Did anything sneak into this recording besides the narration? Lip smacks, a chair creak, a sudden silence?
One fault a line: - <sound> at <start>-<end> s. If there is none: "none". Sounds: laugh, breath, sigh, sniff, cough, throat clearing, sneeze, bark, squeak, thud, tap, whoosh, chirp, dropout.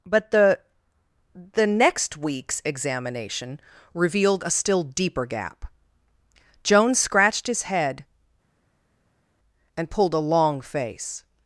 none